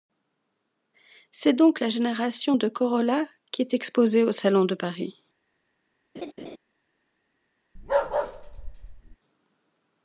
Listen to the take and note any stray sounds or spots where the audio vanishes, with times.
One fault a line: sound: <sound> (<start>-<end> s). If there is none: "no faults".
sound: laugh (6.1-6.6 s)
sound: bark (7.8-9.2 s)